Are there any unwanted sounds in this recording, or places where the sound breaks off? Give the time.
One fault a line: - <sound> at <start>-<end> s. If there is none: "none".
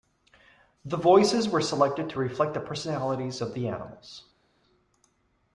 none